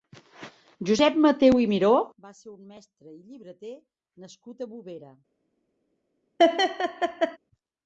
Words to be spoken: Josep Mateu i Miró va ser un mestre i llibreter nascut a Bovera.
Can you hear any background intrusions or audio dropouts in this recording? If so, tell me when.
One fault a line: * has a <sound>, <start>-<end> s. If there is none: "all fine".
* has a laugh, 6.4-7.4 s